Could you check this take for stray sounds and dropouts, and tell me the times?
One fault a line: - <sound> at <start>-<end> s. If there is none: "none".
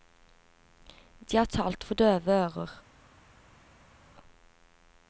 none